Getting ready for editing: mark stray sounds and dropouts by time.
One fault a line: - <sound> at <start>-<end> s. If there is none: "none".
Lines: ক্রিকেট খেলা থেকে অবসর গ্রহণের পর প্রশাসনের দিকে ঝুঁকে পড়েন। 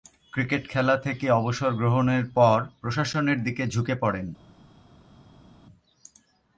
none